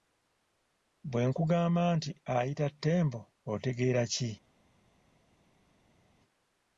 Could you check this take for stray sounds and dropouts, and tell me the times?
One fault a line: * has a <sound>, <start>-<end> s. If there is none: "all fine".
all fine